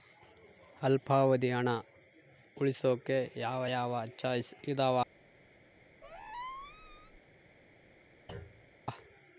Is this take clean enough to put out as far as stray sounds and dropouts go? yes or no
no